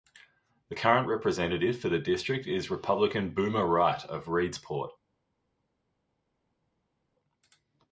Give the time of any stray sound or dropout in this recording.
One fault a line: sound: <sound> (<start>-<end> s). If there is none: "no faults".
no faults